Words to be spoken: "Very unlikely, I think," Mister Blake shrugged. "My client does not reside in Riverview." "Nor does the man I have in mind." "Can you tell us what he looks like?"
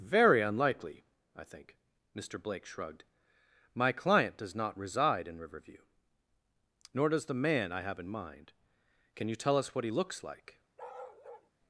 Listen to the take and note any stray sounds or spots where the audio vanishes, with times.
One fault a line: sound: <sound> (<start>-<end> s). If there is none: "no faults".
sound: bark (10.8-11.5 s)